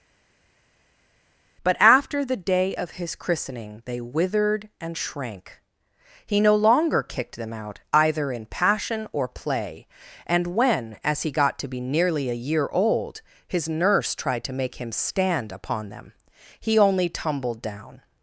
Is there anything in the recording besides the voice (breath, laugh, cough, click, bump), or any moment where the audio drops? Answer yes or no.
no